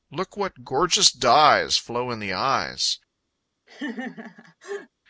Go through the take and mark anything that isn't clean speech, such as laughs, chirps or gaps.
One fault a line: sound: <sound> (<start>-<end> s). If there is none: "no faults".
sound: laugh (3.7-4.9 s)